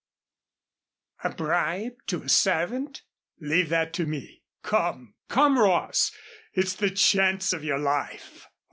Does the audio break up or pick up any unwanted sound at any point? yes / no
no